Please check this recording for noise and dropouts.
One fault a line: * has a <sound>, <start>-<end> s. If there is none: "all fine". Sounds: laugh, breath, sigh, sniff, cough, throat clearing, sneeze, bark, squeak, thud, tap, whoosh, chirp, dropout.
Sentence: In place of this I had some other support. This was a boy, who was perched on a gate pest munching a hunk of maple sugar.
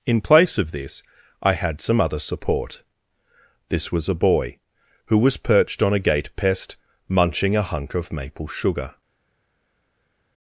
all fine